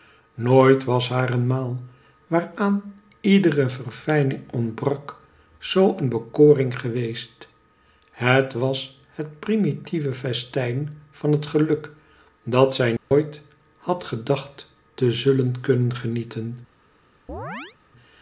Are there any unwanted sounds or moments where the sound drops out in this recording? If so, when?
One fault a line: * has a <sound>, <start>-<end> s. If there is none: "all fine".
* has a dropout, 13.0-13.1 s
* has a chirp, 17.3-17.8 s